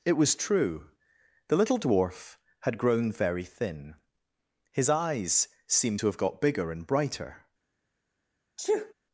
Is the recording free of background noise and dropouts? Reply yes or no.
no